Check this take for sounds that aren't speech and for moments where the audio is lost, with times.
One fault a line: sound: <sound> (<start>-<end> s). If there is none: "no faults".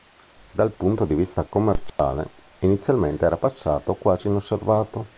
sound: dropout (1.9-2.0 s)